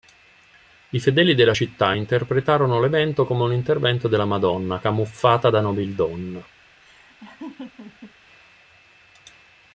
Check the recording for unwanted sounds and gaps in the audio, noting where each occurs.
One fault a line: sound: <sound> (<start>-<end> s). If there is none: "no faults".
sound: laugh (6.8-8.1 s)